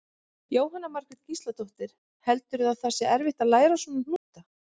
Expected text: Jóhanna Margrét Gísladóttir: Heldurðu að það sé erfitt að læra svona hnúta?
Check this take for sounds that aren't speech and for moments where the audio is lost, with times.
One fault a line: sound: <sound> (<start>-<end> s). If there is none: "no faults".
sound: dropout (4.2-4.3 s)